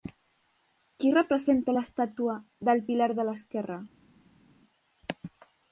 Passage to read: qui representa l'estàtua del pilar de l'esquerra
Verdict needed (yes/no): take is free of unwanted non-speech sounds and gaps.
yes